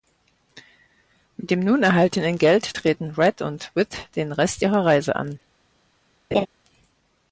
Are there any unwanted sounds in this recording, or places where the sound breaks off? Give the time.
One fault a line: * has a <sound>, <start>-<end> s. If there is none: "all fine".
* has a laugh, 6.3-6.5 s